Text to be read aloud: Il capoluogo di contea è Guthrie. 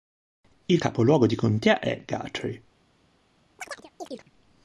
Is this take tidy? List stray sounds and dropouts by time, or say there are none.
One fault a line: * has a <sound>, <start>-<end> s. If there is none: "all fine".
* has a chirp, 3.6-4.3 s